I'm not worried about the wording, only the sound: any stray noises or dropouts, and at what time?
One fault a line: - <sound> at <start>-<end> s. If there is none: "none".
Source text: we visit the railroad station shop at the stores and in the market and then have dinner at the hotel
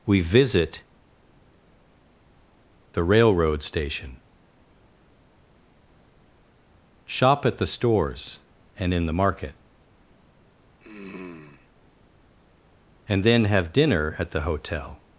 - throat clearing at 10.8-11.7 s